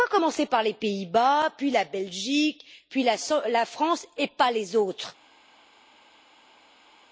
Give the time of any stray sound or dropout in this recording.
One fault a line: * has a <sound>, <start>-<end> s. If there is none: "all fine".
all fine